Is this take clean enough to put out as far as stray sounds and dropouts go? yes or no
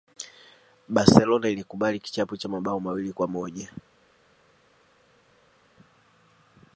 yes